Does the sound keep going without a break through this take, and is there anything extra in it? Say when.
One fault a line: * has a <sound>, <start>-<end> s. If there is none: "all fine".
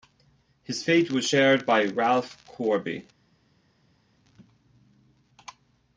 all fine